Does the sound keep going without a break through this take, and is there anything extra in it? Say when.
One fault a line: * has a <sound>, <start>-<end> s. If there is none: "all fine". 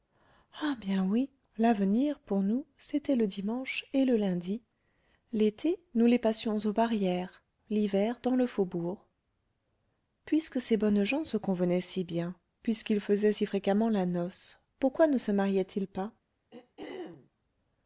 * has a throat clearing, 16.5-17.3 s